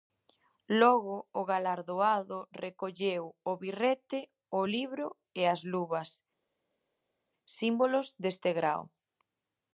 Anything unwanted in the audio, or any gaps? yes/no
no